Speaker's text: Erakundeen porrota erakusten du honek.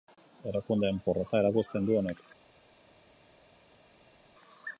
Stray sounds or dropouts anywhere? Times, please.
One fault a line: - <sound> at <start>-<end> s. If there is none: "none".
none